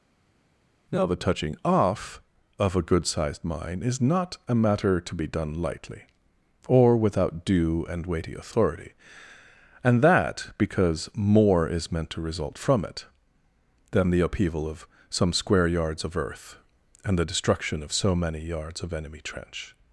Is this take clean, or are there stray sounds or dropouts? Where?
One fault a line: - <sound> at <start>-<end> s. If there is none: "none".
none